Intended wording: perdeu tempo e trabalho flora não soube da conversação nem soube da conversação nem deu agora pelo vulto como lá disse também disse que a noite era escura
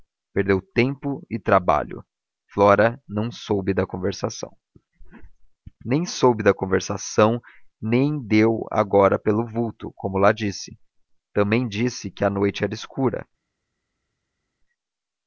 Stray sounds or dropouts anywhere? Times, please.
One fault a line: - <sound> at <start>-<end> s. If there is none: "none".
none